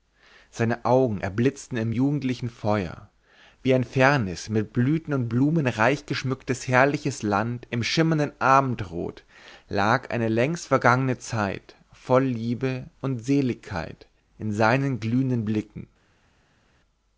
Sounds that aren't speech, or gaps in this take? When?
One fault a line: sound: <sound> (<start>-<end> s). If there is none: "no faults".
no faults